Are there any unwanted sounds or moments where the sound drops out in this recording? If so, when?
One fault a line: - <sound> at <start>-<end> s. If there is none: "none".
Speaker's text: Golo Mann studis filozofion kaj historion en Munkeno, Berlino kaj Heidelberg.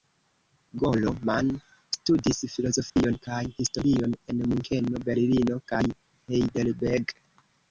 - dropout at 2.9-3.0 s